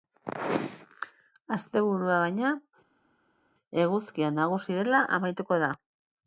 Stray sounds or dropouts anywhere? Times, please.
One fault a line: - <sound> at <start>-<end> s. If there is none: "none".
none